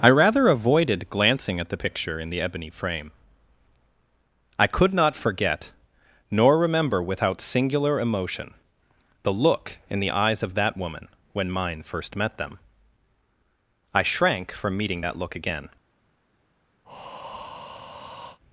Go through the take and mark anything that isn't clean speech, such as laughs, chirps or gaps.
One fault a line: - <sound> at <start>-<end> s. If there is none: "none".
- breath at 16.8-18.4 s